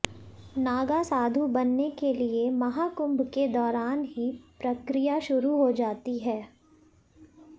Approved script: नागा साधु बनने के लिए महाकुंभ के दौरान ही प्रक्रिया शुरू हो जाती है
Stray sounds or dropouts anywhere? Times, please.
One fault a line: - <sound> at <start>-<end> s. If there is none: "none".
none